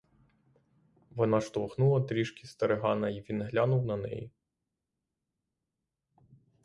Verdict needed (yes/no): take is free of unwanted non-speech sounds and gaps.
yes